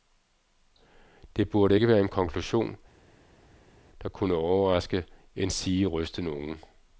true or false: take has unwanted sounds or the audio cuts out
false